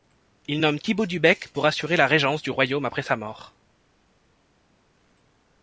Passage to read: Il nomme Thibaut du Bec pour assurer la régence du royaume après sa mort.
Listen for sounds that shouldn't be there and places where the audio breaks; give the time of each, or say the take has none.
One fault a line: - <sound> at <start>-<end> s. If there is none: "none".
none